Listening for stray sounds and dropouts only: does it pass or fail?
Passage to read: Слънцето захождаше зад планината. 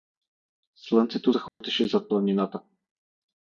fail